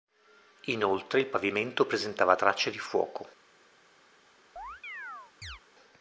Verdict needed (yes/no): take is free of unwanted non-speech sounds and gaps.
no